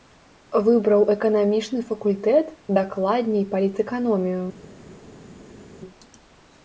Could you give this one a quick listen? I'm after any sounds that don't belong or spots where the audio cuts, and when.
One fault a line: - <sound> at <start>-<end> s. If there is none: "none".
none